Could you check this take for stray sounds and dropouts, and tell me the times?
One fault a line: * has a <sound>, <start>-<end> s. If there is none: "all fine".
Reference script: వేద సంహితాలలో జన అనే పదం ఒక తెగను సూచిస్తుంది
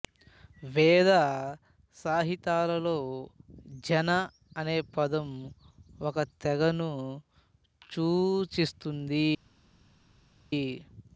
all fine